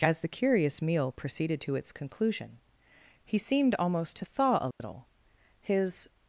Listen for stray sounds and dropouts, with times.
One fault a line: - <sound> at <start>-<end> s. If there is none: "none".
- dropout at 4.7-4.8 s